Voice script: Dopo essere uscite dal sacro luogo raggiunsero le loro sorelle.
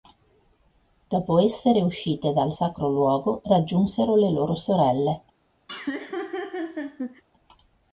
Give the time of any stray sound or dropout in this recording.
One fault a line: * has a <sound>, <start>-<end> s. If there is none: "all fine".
* has a laugh, 5.7-7.2 s